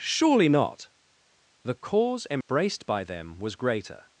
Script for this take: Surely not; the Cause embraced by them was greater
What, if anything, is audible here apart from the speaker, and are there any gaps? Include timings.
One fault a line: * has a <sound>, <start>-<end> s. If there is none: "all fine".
* has a dropout, 2.4-2.5 s